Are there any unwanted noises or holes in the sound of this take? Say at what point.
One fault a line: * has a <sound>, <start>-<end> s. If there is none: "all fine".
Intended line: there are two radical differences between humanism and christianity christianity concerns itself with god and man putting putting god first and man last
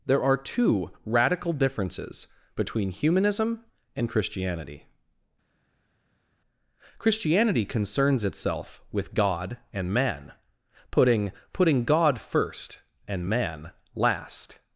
all fine